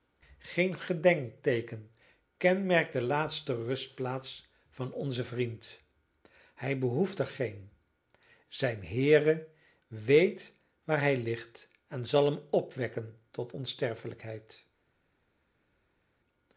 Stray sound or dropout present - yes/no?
no